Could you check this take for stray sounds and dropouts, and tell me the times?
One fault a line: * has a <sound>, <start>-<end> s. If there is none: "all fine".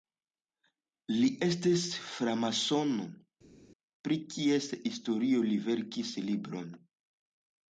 all fine